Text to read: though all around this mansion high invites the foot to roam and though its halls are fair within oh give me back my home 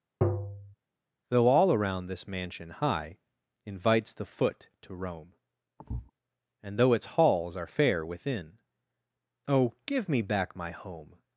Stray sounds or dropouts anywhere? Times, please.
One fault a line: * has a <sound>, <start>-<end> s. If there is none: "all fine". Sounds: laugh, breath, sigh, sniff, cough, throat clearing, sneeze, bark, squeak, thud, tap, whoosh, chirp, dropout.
* has a tap, 0.2-0.7 s
* has a thud, 5.8-6.1 s